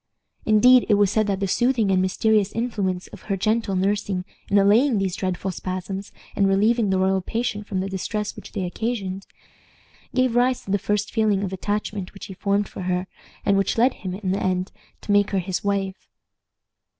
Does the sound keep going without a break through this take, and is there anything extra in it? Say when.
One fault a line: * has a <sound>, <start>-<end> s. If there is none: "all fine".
all fine